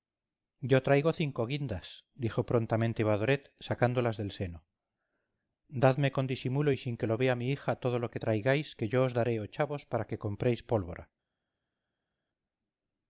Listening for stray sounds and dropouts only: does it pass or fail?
pass